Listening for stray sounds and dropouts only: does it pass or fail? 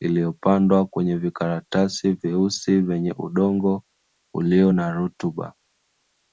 pass